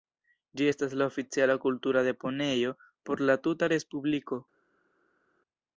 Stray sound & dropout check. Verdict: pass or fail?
pass